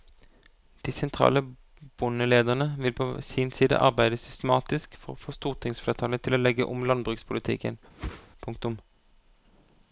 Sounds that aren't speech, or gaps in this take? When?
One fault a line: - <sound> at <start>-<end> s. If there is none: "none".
- whoosh at 8.0-8.3 s